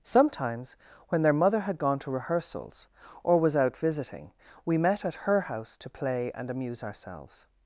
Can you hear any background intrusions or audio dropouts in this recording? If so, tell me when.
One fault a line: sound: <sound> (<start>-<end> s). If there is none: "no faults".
no faults